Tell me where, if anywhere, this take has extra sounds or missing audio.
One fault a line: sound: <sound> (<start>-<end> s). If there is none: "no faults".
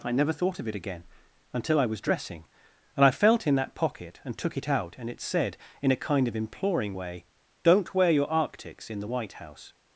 no faults